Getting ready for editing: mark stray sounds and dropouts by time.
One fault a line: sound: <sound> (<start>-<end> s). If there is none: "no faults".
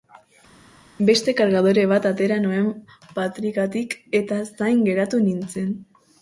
no faults